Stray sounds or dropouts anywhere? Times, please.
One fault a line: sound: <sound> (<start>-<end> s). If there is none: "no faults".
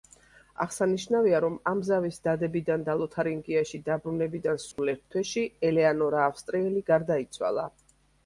sound: dropout (4.7-4.8 s)